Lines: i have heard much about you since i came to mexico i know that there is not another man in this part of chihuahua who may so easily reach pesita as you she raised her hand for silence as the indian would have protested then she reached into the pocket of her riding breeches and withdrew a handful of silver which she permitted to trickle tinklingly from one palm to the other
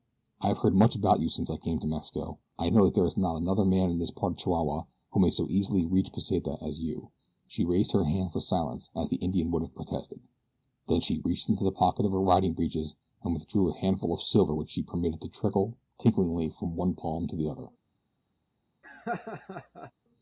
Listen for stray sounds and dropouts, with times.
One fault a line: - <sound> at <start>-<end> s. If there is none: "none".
- laugh at 18.8-19.9 s